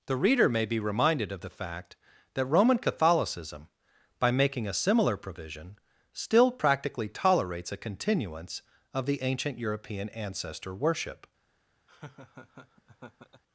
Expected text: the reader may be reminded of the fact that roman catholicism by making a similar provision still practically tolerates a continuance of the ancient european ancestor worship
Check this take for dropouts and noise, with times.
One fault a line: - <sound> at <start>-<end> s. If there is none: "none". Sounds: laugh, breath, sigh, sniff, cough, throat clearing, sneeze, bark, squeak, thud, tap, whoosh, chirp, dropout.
- laugh at 11.9-13.4 s